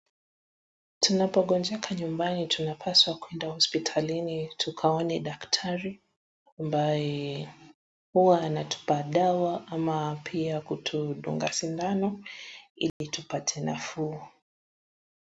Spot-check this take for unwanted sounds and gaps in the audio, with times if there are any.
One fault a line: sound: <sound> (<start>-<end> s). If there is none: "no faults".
sound: dropout (12.9-13.0 s)